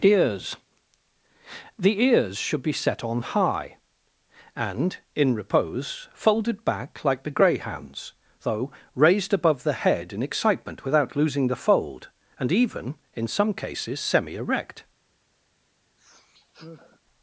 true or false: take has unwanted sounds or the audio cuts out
true